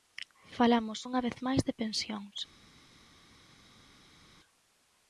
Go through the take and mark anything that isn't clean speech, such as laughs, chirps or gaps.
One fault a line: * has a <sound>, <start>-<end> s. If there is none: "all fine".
all fine